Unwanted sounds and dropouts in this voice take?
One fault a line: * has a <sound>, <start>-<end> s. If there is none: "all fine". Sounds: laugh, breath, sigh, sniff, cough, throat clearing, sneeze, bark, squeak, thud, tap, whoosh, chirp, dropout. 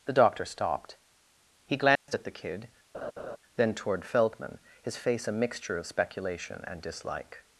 * has a dropout, 2.0-2.1 s
* has a laugh, 2.9-3.4 s